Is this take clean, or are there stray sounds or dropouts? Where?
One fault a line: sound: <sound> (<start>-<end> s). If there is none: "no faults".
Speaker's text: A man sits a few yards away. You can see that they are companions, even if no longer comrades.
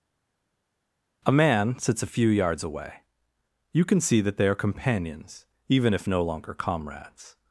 no faults